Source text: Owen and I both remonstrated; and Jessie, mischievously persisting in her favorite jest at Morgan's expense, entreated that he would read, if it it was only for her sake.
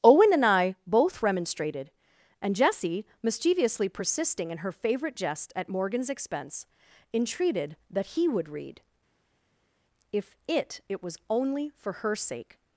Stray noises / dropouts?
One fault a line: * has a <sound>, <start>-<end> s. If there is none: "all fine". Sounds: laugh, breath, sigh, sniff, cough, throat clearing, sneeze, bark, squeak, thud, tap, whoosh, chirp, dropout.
all fine